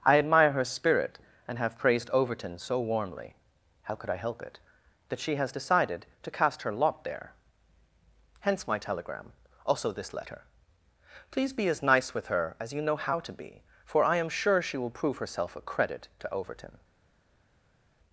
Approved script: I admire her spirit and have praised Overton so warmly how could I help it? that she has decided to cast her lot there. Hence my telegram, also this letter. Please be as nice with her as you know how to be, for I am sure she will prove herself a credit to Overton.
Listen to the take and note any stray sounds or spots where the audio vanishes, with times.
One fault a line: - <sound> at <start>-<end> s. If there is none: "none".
none